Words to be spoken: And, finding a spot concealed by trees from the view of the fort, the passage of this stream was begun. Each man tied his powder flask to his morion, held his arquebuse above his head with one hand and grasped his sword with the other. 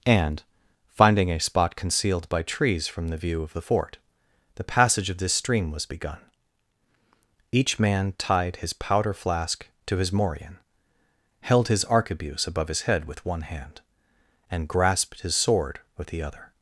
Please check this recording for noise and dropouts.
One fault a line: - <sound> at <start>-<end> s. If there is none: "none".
none